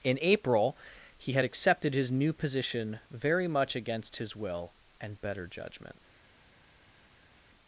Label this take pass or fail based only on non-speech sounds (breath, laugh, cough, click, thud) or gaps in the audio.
pass